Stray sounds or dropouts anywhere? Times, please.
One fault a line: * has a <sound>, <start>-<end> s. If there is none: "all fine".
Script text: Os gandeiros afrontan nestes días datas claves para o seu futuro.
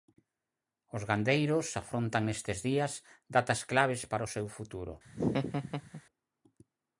* has a laugh, 5.0-6.0 s